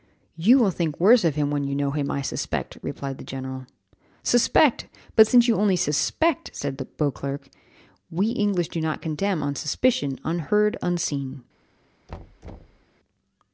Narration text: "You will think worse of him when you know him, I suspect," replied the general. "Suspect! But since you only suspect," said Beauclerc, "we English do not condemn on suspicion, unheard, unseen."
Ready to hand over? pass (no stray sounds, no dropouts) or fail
fail